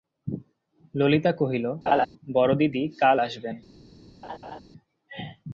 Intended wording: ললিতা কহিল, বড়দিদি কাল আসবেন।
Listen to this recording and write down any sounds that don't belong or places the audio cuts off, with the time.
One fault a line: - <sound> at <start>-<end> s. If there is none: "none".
- laugh at 1.9-2.1 s
- laugh at 4.2-4.6 s